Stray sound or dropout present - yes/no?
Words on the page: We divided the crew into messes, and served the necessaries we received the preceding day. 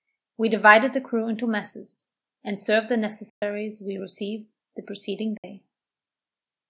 yes